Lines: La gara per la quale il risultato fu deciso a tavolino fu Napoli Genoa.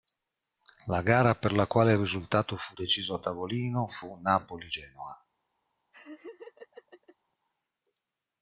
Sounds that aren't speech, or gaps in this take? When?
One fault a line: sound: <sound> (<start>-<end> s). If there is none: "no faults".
sound: laugh (5.9-7.2 s)